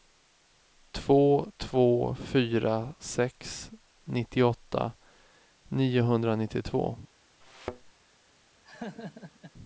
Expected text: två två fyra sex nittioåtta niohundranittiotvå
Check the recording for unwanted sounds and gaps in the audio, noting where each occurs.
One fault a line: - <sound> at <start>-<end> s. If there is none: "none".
- thud at 7.4-7.9 s
- laugh at 8.6-9.5 s